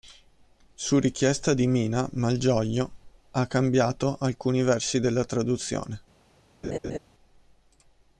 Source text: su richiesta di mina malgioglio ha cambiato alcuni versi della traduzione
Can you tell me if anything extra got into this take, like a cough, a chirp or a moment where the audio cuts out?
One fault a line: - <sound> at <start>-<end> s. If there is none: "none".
- laugh at 6.6-7.0 s